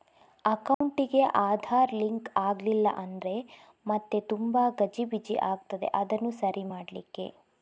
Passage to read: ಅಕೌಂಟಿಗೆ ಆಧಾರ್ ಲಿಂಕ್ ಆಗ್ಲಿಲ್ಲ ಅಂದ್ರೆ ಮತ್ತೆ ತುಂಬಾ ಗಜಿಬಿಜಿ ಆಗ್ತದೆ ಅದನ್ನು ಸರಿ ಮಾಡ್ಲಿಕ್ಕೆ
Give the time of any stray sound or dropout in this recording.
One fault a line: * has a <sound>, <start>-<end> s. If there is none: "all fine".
* has a dropout, 0.7-0.8 s